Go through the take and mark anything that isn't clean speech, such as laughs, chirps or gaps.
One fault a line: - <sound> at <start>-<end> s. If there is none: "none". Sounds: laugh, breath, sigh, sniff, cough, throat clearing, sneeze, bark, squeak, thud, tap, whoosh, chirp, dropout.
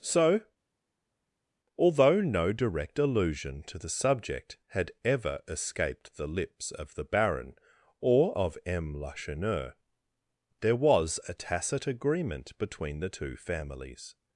none